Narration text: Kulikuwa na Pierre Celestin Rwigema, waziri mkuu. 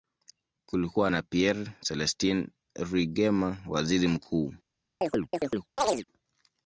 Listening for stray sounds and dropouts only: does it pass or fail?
fail